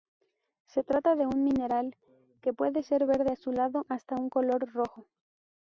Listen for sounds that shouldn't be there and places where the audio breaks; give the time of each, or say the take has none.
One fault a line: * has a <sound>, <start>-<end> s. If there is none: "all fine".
all fine